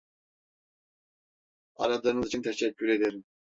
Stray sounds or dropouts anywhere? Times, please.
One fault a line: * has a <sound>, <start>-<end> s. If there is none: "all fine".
all fine